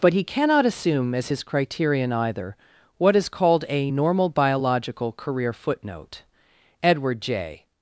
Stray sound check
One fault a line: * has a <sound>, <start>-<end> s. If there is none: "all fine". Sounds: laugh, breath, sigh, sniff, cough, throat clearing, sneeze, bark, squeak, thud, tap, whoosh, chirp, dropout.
all fine